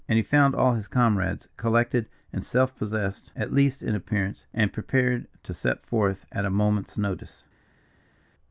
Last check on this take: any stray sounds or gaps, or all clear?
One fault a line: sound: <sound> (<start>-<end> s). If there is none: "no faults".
no faults